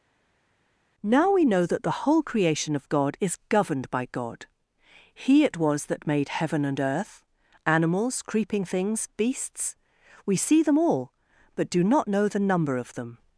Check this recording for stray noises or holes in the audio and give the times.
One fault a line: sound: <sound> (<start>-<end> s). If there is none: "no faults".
no faults